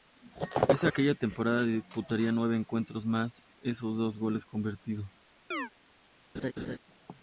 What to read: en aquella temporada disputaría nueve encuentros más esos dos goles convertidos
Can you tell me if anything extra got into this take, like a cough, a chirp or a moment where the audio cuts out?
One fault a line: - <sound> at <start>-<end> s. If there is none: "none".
- chirp at 5.5-5.7 s
- laugh at 6.3-6.8 s